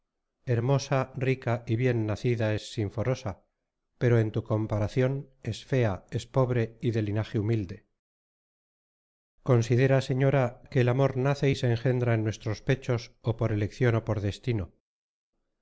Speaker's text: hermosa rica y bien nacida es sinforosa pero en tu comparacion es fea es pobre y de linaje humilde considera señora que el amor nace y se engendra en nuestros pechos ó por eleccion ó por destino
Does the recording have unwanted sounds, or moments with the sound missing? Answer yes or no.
no